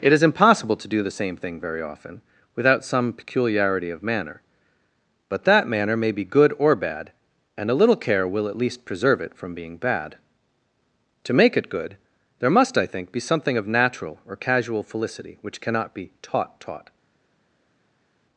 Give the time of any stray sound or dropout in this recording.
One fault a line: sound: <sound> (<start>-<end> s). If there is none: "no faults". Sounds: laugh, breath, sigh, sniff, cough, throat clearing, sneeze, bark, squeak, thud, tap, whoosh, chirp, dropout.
no faults